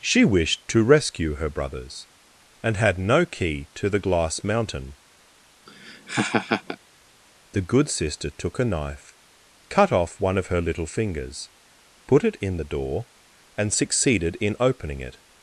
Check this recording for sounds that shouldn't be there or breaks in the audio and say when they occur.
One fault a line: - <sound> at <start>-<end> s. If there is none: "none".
- laugh at 5.7-6.8 s